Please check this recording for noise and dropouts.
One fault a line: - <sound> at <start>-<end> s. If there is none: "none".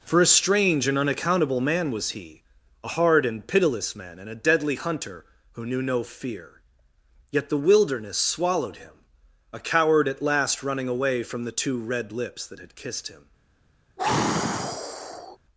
- sigh at 14.0-15.4 s